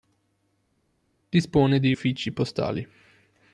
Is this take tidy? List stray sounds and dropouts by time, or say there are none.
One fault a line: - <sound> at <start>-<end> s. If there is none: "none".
none